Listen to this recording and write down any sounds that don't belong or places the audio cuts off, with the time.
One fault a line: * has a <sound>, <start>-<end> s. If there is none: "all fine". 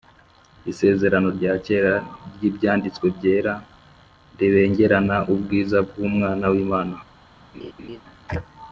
* has a laugh, 7.5-8.0 s